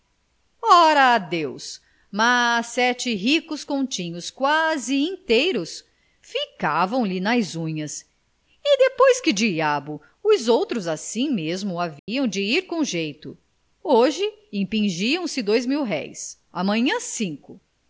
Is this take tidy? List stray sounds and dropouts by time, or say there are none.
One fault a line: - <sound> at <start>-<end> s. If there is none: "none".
- dropout at 12.0-12.1 s